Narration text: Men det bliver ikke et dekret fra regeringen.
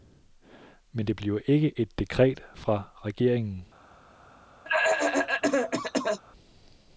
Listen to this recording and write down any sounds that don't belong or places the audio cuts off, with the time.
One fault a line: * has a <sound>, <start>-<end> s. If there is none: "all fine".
* has a cough, 4.6-6.2 s